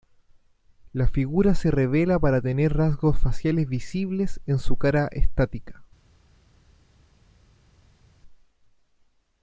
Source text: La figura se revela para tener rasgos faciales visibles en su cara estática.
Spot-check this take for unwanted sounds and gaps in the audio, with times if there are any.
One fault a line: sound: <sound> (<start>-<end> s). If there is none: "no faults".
no faults